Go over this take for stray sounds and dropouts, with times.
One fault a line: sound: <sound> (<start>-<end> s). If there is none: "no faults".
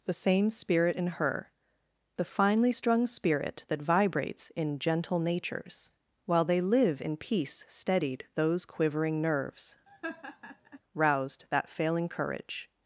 sound: laugh (9.9-10.8 s)